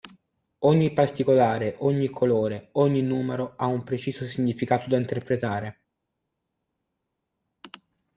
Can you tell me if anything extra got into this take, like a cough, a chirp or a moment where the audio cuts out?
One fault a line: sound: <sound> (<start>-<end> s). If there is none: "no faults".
no faults